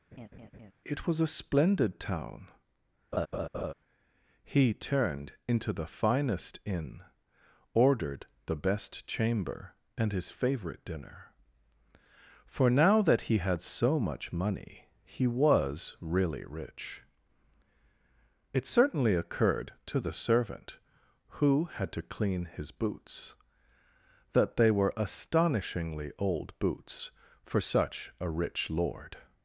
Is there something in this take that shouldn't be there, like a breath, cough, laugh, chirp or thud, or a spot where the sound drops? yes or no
yes